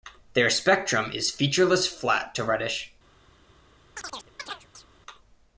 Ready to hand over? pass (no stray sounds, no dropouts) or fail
fail